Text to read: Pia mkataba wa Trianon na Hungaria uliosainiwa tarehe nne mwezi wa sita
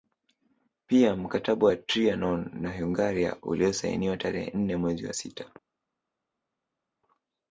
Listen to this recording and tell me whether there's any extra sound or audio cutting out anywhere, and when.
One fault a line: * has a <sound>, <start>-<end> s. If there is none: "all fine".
all fine